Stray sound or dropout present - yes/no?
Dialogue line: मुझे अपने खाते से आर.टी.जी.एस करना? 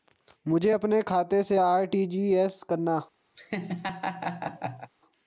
yes